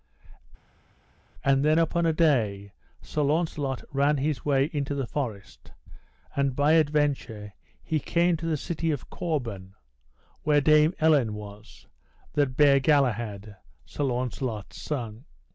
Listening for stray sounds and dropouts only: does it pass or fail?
pass